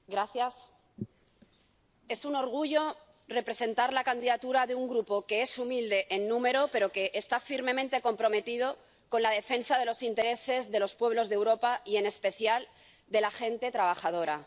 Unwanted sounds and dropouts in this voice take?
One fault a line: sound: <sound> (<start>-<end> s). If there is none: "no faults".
no faults